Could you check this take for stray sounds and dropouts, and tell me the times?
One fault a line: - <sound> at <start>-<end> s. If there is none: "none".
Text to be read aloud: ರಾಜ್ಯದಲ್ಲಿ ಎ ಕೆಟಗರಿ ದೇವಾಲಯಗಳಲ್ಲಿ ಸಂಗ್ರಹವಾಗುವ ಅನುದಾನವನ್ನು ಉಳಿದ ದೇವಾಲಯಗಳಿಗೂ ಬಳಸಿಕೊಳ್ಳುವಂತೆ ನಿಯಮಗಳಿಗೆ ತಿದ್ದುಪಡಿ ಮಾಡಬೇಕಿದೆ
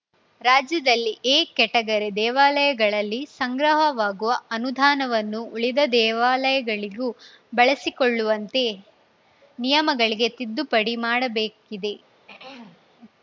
- throat clearing at 12.3-12.9 s